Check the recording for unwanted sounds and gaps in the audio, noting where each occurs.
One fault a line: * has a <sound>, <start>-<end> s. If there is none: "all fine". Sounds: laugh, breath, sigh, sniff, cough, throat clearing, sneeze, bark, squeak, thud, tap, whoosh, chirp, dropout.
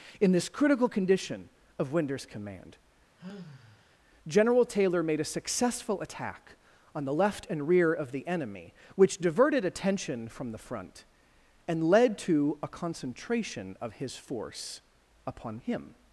* has a sigh, 3.2-4.0 s